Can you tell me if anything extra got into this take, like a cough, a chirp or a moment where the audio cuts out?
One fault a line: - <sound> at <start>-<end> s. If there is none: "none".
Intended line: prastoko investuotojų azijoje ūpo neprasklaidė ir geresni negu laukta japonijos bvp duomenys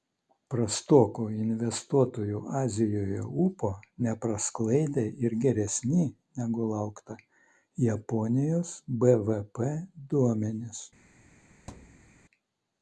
- thud at 11.7-12.1 s